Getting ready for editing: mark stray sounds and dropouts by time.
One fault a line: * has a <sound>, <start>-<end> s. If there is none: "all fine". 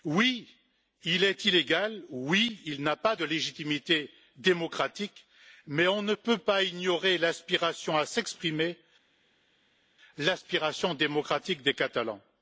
all fine